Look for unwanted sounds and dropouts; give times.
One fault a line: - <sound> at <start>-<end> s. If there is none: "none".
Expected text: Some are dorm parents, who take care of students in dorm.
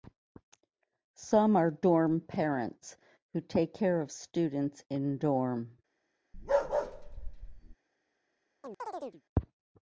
- bark at 6.3-7.8 s
- chirp at 8.6-9.2 s